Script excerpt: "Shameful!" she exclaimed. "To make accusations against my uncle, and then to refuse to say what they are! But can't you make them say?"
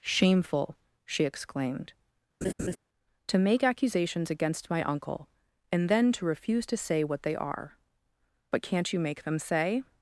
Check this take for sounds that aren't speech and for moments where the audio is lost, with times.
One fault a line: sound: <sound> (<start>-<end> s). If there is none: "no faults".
sound: laugh (2.4-2.8 s)